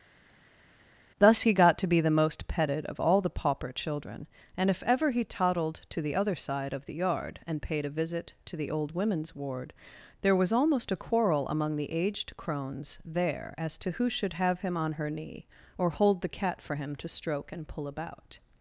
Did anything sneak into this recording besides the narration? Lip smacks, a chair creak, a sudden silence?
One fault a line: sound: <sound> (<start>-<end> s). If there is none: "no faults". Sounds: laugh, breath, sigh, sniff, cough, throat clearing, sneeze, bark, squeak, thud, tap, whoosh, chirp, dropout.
no faults